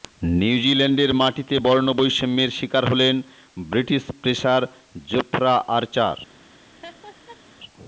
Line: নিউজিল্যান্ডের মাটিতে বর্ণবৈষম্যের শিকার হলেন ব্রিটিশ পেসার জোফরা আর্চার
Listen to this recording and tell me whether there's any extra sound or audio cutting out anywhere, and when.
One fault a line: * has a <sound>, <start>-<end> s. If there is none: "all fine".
* has a laugh, 6.8-7.4 s